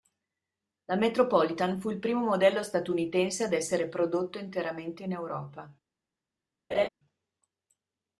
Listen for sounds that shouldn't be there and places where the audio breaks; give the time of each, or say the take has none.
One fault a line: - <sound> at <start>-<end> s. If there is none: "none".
- laugh at 6.7-6.9 s